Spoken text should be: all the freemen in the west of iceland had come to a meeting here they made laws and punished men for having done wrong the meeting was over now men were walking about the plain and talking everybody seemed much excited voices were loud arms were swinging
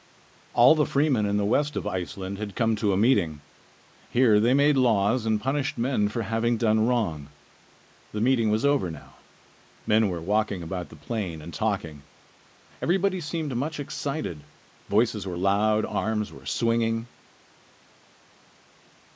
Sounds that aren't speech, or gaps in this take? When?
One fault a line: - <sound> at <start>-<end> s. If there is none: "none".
none